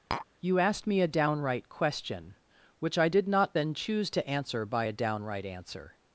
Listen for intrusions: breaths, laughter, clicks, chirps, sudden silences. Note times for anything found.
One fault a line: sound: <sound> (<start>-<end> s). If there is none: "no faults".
sound: tap (0.1-0.3 s)